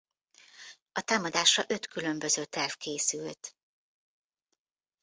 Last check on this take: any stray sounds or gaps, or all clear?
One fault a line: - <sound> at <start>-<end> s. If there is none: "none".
none